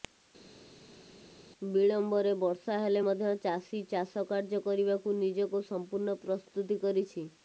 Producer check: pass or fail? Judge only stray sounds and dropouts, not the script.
pass